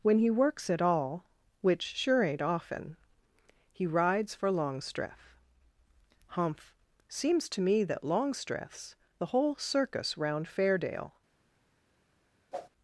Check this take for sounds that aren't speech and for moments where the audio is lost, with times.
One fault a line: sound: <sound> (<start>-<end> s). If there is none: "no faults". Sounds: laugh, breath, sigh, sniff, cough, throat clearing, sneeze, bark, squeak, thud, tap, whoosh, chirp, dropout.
sound: whoosh (12.5-12.7 s)